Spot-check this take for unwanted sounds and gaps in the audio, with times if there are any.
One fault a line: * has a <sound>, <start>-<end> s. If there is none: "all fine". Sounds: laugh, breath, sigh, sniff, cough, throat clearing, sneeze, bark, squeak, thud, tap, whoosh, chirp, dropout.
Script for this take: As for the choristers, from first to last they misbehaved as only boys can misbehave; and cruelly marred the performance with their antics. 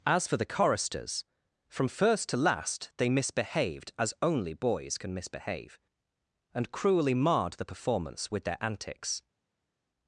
all fine